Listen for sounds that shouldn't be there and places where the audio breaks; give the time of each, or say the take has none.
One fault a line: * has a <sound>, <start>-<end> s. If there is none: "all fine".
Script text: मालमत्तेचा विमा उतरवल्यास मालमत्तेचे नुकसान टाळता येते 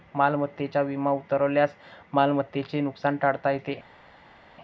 all fine